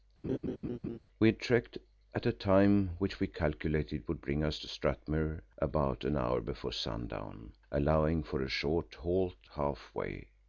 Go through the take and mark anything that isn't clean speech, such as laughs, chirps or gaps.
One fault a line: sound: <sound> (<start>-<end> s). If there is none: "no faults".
sound: laugh (0.2-1.0 s)